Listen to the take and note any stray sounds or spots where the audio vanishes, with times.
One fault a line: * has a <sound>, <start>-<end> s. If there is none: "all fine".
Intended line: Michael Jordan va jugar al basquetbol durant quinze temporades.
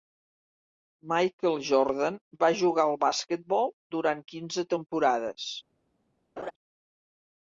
* has a laugh, 6.4-6.5 s